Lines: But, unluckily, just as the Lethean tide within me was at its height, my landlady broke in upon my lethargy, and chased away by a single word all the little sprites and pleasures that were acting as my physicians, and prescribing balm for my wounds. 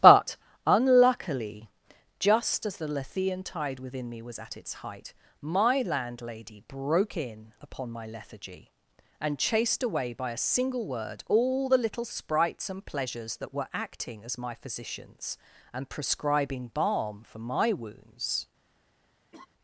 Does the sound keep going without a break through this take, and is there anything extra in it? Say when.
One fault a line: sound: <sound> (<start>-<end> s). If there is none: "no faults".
sound: laugh (19.3-19.5 s)